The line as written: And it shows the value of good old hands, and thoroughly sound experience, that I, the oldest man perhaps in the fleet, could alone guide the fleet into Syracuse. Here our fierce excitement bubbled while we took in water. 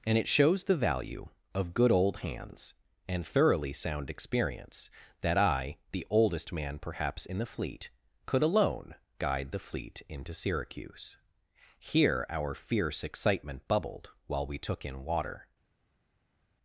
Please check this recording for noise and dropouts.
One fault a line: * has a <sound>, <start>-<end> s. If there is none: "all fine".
all fine